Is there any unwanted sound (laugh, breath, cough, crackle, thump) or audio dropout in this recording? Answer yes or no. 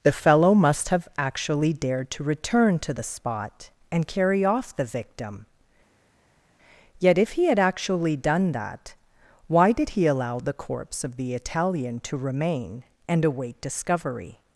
no